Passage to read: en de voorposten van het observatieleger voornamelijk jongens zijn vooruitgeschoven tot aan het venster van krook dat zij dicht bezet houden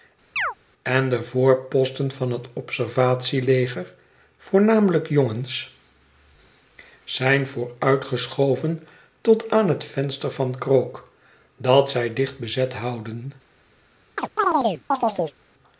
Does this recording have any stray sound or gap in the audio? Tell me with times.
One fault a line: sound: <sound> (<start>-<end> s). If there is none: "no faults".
sound: chirp (0.4-0.5 s)
sound: chirp (14.2-15.4 s)